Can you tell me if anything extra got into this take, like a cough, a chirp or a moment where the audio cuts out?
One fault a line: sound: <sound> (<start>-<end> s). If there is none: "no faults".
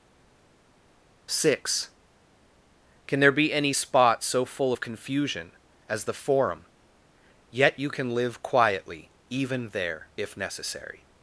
no faults